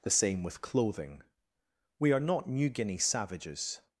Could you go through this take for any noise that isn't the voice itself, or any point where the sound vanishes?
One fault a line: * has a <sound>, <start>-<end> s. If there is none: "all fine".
all fine